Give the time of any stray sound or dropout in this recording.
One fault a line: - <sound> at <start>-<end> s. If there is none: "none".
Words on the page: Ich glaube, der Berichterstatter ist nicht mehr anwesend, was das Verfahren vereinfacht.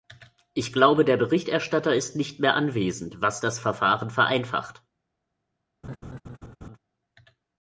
- laugh at 5.8-6.8 s